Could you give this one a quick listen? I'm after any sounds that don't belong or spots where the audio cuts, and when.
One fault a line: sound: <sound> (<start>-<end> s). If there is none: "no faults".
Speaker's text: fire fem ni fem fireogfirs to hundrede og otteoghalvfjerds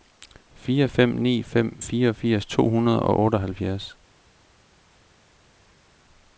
no faults